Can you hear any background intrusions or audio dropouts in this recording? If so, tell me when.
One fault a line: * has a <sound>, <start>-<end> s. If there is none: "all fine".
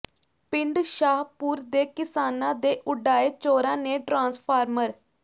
all fine